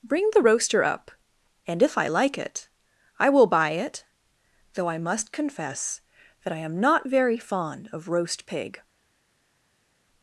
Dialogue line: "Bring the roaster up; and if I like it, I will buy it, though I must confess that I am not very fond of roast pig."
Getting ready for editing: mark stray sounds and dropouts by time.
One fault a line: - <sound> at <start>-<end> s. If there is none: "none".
none